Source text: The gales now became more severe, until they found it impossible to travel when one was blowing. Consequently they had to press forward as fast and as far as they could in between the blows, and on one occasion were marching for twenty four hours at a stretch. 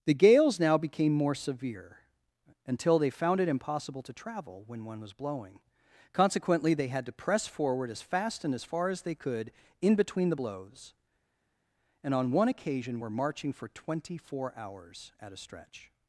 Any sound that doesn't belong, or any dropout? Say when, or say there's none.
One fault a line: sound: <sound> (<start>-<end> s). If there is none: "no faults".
no faults